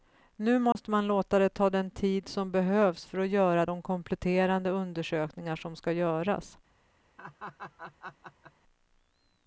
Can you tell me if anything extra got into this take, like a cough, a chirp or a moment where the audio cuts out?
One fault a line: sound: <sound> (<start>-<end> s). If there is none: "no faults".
sound: dropout (0.7-0.8 s)
sound: laugh (7.2-8.5 s)